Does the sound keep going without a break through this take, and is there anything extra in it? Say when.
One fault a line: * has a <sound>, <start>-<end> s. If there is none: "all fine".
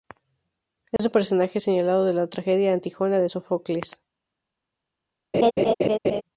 * has a dropout, 1.0-1.0 s
* has a laugh, 5.3-6.2 s